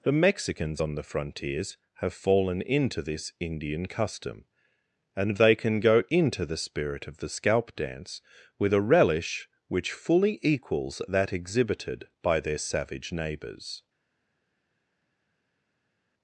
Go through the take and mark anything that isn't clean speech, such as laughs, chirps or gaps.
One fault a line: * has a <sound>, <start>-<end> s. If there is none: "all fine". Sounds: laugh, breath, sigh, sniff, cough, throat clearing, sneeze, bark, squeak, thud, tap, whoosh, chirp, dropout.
all fine